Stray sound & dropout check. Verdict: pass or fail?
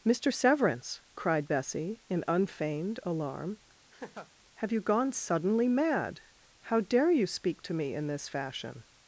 fail